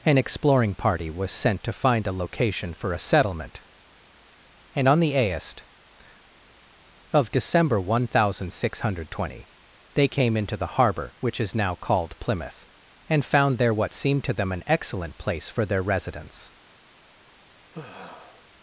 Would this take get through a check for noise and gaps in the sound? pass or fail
fail